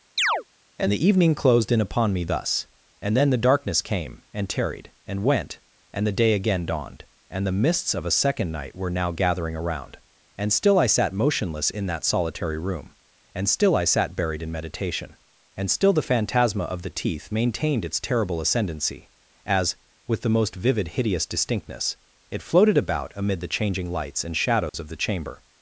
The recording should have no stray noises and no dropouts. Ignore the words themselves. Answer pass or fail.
fail